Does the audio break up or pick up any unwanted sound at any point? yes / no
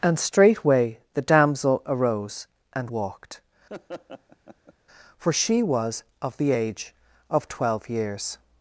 yes